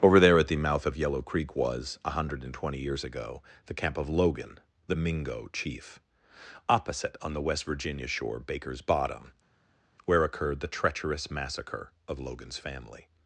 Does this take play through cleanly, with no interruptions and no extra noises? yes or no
yes